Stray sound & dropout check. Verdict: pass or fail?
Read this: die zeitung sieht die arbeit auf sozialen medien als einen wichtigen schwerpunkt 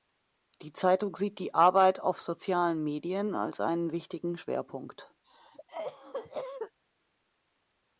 fail